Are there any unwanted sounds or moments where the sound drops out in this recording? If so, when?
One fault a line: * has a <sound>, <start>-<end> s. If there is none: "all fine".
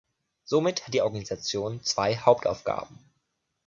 all fine